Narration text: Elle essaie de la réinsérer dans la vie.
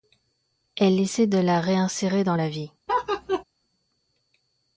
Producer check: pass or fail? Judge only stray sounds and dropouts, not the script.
fail